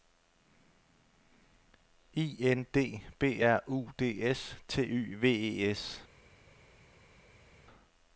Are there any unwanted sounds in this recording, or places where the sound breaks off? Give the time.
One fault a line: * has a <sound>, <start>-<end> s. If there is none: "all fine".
all fine